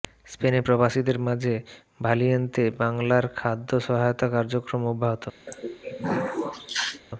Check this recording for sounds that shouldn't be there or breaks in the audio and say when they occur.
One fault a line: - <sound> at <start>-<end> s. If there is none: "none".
- throat clearing at 5.5-7.0 s